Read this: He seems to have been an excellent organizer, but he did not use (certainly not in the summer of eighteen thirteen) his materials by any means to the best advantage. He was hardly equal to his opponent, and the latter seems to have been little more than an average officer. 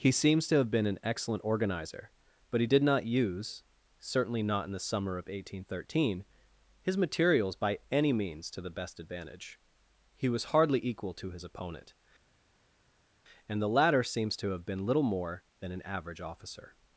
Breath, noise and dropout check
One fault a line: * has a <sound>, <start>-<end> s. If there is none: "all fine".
all fine